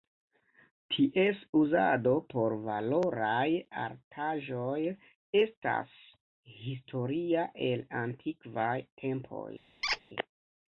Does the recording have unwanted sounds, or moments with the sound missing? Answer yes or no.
yes